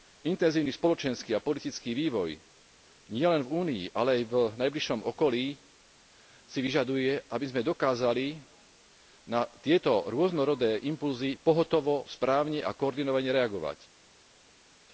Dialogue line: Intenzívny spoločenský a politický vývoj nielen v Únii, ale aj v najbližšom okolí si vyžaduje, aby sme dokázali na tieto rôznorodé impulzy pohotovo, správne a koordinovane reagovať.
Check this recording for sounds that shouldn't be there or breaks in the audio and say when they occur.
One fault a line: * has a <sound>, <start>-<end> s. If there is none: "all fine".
all fine